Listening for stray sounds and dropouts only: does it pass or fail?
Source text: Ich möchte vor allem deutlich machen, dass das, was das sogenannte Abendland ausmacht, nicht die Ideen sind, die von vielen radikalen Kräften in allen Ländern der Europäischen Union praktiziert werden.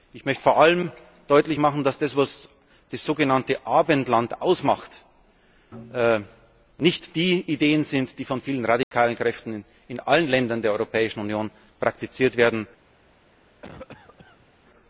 fail